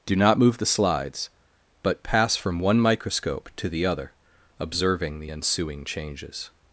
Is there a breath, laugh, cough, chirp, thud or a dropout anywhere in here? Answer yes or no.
no